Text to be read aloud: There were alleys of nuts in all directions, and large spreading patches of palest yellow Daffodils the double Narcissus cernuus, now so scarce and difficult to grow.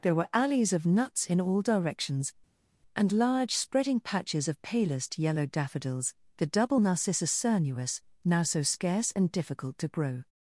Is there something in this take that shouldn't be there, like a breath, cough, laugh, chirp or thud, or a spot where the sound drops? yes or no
no